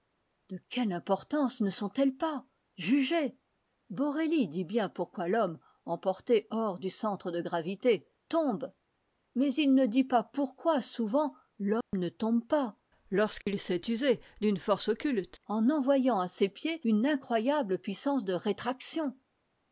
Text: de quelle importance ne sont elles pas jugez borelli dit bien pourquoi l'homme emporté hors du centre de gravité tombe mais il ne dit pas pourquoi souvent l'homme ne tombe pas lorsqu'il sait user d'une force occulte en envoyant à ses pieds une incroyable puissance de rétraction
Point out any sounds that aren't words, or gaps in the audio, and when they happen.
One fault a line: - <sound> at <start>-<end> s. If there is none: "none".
- dropout at 11.8-11.9 s
- dropout at 13.4-13.5 s